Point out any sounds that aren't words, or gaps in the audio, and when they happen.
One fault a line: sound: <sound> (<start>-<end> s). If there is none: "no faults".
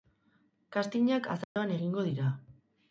sound: dropout (1.4-1.6 s)